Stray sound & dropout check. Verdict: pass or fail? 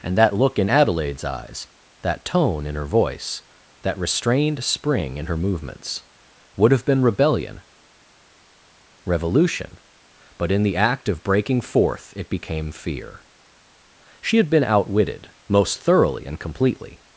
pass